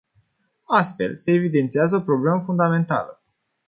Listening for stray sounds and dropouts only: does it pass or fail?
pass